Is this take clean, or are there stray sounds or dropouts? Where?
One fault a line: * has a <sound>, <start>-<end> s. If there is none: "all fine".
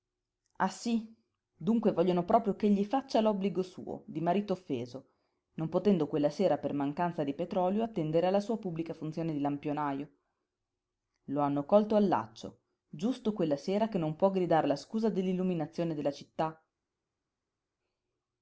all fine